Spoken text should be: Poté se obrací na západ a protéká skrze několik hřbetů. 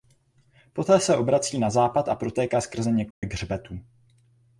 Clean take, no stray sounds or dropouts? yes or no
no